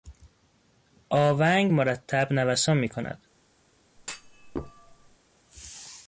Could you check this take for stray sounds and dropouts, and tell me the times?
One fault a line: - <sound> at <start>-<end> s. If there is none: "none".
- thud at 4.0-5.2 s